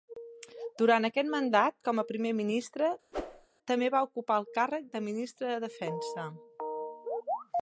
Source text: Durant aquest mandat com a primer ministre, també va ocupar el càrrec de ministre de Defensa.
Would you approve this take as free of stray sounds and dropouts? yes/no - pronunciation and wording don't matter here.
no